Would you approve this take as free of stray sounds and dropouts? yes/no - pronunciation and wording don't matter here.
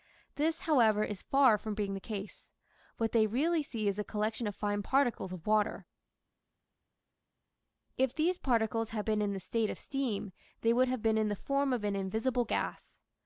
yes